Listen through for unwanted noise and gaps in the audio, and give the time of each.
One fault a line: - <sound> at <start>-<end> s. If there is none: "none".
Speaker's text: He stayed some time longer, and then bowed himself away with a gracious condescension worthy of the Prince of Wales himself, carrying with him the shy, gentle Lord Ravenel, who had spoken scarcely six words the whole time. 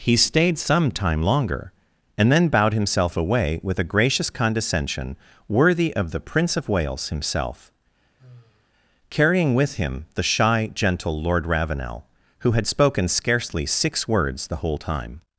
- sigh at 8.2-8.7 s